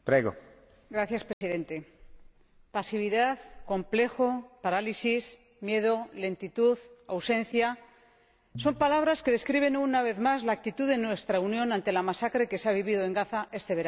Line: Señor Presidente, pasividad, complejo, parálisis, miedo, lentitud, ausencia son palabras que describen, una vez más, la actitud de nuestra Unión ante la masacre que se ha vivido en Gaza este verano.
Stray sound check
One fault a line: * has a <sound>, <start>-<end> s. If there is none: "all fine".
* has a dropout, 1.3-1.4 s